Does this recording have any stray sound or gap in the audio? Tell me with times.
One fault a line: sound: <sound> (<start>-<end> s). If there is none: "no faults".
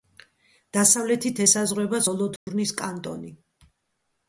sound: dropout (2.4-2.5 s)